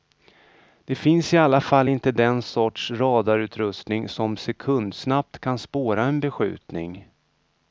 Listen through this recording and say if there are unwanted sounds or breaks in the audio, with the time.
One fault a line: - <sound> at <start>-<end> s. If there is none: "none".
none